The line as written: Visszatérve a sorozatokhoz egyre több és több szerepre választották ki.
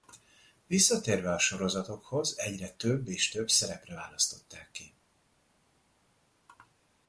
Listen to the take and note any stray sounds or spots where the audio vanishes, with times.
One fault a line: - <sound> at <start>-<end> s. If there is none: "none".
none